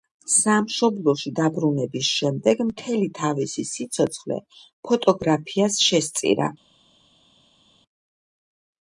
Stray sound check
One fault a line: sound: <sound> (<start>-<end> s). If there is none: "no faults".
no faults